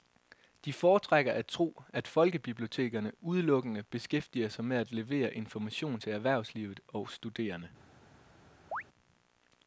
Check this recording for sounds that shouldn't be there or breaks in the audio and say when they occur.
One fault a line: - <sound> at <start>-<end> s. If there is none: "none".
- chirp at 8.7-8.8 s